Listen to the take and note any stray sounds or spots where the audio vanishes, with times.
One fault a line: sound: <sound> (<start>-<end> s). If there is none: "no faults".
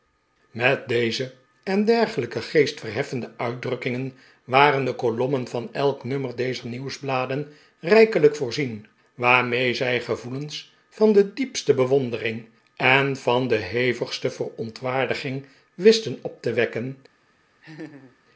sound: laugh (17.6-18.2 s)